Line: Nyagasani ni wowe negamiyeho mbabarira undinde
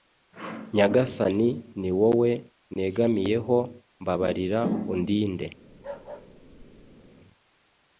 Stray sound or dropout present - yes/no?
yes